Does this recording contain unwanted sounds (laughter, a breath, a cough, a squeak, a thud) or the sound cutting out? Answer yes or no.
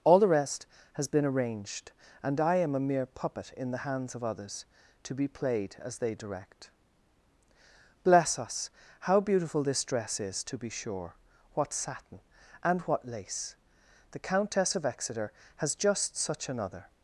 no